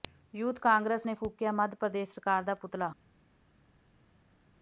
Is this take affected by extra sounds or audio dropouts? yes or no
no